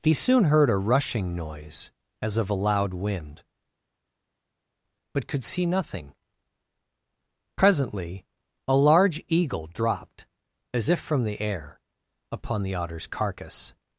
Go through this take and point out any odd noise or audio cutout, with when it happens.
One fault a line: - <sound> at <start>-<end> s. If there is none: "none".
none